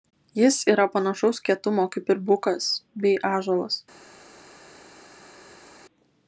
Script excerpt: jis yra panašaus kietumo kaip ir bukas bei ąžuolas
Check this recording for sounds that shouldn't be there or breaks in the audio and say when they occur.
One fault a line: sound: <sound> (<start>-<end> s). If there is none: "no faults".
no faults